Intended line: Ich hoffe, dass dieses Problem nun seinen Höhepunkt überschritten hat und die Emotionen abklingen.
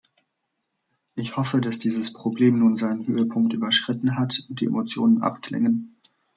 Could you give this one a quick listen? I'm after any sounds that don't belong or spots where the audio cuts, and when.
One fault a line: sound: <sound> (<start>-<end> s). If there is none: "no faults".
no faults